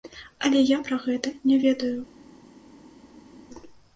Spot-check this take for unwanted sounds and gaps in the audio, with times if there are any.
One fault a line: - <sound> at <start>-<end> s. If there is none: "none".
none